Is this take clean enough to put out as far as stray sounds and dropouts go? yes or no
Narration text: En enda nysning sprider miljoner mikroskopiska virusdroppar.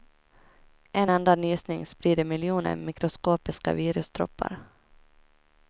yes